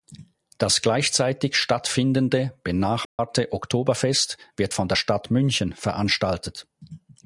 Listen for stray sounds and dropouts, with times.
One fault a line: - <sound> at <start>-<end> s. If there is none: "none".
- dropout at 3.0-3.2 s